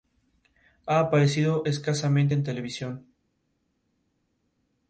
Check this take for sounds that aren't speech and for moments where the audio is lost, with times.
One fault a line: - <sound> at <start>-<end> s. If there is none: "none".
none